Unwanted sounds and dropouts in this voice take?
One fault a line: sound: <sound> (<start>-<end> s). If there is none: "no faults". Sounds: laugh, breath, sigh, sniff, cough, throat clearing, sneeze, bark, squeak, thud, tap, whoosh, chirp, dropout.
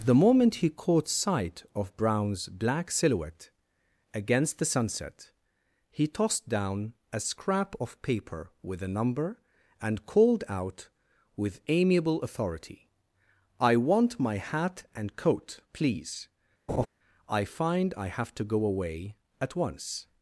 sound: laugh (16.7-16.9 s)